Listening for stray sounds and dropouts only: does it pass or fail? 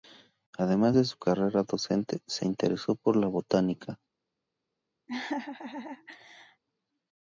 fail